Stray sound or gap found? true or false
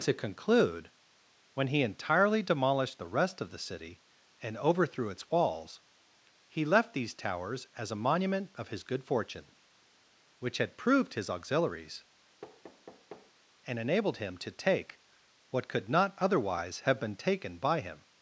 true